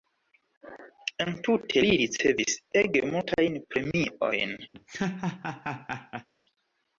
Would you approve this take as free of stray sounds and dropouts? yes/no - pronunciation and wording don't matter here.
no